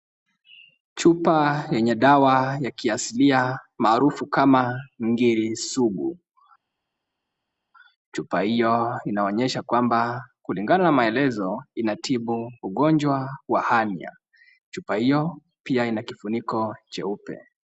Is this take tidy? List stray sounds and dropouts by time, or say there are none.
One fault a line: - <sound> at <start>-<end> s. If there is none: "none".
none